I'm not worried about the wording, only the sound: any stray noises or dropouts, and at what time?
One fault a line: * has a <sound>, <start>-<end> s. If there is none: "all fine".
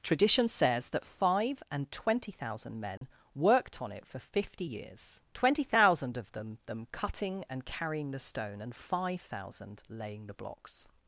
* has a dropout, 3.0-3.0 s